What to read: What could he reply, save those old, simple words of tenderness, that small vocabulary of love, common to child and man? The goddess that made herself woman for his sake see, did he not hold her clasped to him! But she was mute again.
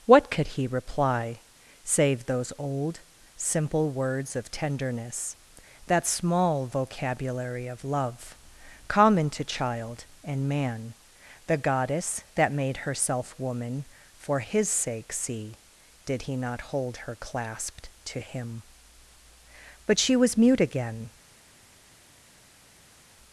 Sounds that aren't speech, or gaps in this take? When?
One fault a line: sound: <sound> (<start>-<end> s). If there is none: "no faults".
no faults